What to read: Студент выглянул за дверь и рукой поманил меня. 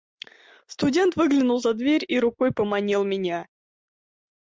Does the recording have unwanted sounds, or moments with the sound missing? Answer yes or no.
no